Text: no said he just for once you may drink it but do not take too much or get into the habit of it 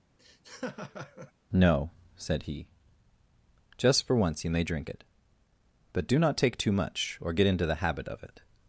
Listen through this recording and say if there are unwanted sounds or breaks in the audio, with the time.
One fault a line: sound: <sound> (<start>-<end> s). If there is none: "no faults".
sound: laugh (0.2-1.3 s)